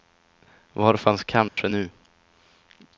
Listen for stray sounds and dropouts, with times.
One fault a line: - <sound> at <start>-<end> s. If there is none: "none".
- dropout at 1.5-1.6 s